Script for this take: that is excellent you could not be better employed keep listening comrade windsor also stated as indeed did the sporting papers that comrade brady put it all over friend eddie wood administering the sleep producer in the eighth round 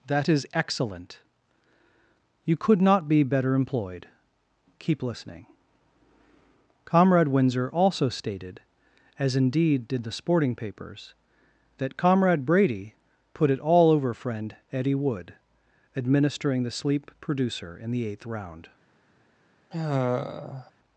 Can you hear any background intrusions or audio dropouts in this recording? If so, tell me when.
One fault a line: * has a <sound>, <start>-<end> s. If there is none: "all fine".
* has a sigh, 19.7-20.7 s